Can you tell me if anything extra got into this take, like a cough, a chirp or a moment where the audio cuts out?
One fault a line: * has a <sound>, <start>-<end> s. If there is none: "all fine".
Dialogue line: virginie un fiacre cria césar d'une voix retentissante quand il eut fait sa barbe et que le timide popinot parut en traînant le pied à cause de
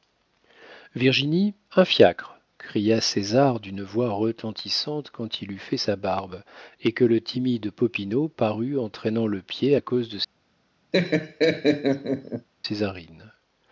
* has a laugh, 10.9-12.5 s